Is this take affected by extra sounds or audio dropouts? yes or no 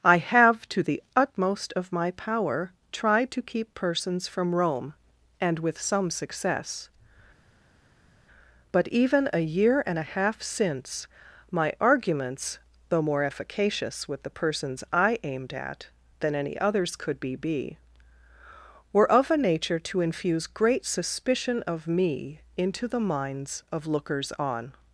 no